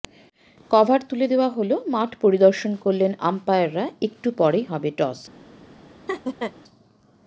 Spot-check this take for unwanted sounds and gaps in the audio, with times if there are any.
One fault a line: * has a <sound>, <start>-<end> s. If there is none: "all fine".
* has a laugh, 6.1-6.5 s